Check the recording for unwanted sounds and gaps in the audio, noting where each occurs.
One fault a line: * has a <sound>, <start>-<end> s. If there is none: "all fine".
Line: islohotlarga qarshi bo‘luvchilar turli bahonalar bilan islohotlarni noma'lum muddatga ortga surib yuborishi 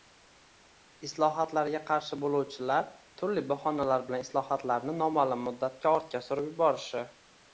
all fine